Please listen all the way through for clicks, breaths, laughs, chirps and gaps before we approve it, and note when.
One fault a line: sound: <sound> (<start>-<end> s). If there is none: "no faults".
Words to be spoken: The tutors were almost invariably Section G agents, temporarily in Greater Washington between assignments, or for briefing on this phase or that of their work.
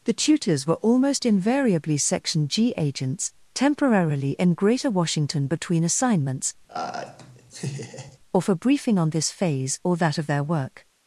sound: laugh (6.7-8.2 s)